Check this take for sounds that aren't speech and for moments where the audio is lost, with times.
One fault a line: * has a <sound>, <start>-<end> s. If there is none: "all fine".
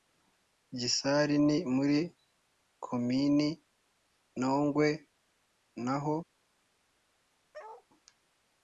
* has a bark, 7.5-7.9 s